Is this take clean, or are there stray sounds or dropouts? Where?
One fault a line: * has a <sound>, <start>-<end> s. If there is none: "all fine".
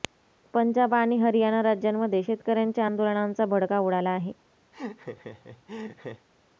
* has a laugh, 4.7-6.3 s